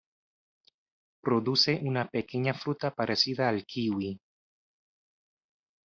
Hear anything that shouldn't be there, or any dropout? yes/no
no